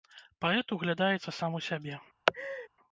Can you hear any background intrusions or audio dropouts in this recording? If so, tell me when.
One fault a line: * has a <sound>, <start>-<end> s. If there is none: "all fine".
* has a laugh, 2.3-2.7 s